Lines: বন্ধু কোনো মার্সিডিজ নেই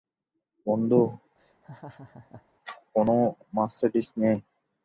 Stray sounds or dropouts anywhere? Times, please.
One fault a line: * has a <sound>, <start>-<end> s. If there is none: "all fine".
* has a laugh, 1.4-2.4 s